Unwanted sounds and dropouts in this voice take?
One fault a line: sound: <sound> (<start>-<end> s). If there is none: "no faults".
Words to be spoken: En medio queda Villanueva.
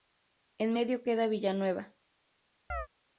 sound: chirp (2.7-2.9 s)